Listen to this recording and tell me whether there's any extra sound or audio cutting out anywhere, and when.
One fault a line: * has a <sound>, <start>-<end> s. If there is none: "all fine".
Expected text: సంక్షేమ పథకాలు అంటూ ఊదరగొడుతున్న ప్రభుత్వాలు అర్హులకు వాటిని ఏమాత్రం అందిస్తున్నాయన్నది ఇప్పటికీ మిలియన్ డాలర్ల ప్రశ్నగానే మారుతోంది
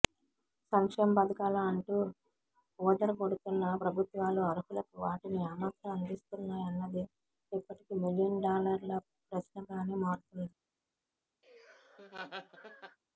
* has a laugh, 11.4-13.0 s